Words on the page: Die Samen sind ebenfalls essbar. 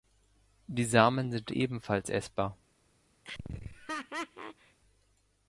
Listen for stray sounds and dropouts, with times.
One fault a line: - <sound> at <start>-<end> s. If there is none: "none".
- laugh at 3.2-4.8 s